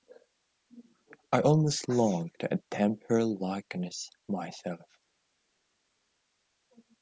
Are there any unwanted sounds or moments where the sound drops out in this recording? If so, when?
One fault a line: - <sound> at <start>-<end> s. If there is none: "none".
none